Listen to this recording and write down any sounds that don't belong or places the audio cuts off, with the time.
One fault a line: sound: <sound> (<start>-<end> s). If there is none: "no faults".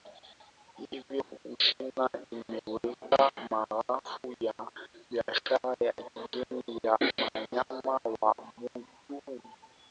sound: dropout (1.2-1.3 s)